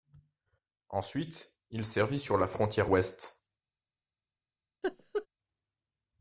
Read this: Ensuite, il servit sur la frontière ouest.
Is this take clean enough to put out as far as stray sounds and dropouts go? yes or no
no